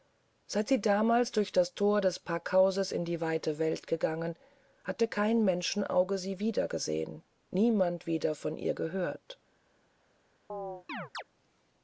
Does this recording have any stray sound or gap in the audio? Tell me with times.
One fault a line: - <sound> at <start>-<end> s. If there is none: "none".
- chirp at 10.5-11.2 s